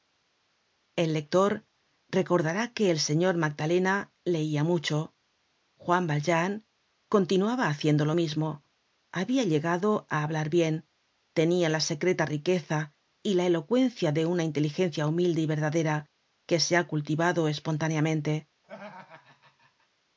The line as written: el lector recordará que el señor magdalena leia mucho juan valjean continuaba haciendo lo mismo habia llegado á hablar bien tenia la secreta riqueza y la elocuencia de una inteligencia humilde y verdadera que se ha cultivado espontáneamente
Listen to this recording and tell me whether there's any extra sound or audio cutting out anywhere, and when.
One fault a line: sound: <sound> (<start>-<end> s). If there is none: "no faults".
sound: laugh (18.6-19.9 s)